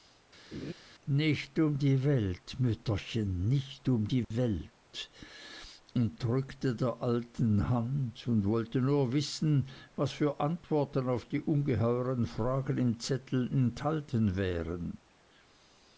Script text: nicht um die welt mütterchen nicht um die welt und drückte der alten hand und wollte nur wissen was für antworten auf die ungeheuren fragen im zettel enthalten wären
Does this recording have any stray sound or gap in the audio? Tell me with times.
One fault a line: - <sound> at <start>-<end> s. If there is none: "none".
- laugh at 0.5-0.7 s
- dropout at 4.2-4.3 s